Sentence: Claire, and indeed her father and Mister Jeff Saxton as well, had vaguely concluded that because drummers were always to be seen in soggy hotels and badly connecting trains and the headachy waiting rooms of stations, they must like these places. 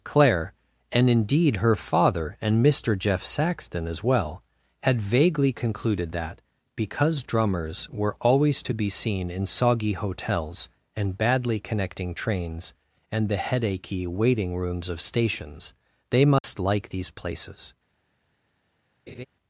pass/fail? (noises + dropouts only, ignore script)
fail